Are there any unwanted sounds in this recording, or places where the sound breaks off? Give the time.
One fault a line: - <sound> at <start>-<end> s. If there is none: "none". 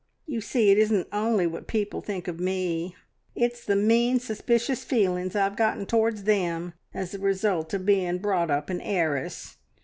none